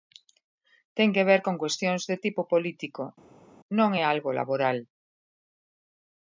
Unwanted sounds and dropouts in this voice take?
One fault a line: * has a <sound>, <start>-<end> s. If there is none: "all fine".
all fine